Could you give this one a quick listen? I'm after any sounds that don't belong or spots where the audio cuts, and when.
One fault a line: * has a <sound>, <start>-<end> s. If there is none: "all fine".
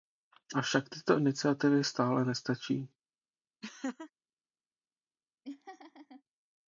* has a laugh, 3.6-4.1 s
* has a laugh, 5.4-6.2 s